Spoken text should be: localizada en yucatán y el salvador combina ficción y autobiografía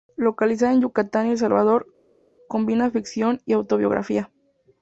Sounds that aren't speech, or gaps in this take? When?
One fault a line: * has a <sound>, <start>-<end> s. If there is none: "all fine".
all fine